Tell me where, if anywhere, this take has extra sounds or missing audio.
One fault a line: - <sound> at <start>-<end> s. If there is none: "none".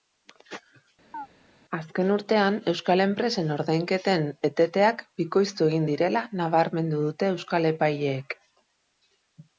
- chirp at 1.1-1.3 s